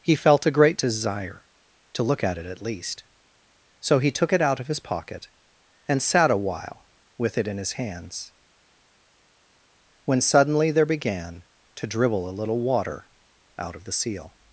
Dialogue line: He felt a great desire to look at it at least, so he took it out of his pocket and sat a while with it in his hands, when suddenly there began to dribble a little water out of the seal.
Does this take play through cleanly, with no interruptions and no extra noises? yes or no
yes